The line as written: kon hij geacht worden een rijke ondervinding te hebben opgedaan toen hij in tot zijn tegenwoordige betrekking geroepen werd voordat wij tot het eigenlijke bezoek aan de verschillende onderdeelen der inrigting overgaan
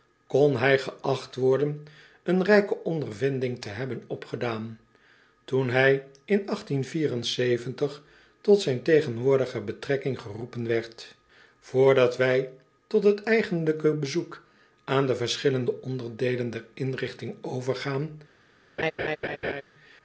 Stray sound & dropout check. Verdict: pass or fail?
fail